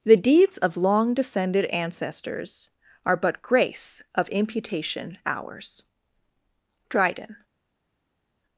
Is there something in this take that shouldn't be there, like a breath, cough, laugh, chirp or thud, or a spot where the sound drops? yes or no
no